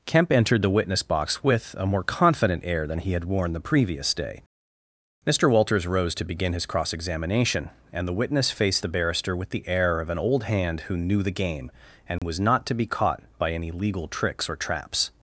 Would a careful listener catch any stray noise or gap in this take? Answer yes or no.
yes